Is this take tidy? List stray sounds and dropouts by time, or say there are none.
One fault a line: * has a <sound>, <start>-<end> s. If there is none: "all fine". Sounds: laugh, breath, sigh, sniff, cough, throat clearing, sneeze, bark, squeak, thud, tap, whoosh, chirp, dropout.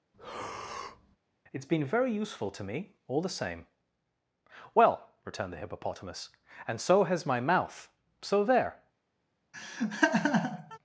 * has a breath, 0.1-1.2 s
* has a laugh, 9.5-10.8 s